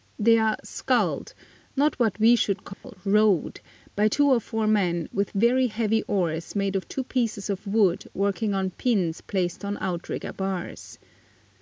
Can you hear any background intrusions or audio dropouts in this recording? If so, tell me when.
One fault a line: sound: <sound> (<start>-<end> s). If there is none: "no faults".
sound: dropout (2.7-2.8 s)